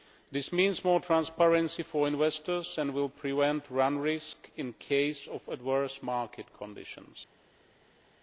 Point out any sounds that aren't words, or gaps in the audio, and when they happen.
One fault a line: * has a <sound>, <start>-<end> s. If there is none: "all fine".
all fine